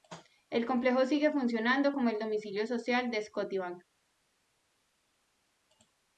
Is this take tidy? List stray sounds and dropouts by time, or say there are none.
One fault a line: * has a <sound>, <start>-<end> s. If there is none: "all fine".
all fine